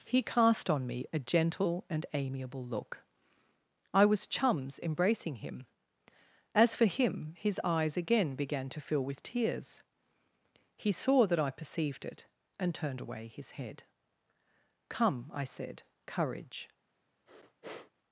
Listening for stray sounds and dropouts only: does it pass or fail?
fail